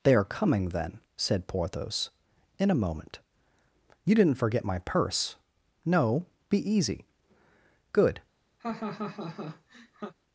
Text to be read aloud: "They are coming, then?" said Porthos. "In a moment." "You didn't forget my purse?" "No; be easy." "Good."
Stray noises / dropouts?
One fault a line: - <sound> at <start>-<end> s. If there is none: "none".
- laugh at 8.6-10.1 s